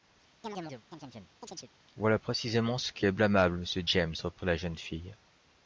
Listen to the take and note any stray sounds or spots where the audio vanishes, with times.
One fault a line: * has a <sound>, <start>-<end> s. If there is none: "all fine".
* has a chirp, 0.4-1.7 s